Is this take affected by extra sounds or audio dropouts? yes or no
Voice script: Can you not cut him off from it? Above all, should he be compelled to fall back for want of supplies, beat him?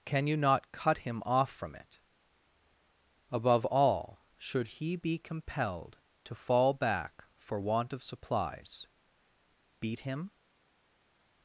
no